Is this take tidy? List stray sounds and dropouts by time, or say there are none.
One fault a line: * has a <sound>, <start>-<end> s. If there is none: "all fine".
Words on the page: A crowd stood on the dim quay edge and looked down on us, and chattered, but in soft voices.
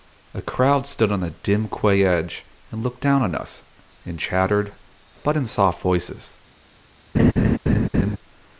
* has a laugh, 7.1-8.2 s